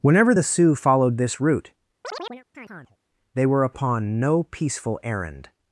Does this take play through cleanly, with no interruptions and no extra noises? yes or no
no